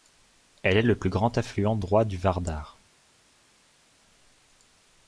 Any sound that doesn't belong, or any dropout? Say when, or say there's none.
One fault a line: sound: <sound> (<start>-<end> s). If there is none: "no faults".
no faults